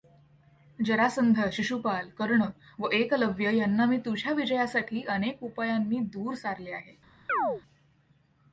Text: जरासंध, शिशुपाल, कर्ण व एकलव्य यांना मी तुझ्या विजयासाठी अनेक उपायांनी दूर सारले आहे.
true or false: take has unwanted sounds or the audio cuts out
true